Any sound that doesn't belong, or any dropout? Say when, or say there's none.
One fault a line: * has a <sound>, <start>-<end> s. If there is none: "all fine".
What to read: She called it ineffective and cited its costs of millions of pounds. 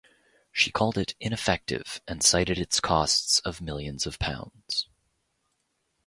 all fine